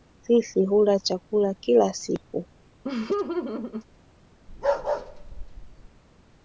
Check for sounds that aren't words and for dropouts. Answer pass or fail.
fail